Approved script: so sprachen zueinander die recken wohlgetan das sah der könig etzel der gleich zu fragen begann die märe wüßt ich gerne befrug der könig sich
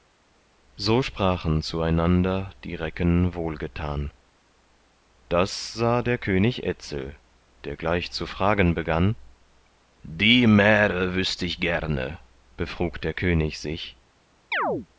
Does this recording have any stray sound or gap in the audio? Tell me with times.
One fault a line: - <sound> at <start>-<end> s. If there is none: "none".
- chirp at 14.5-14.9 s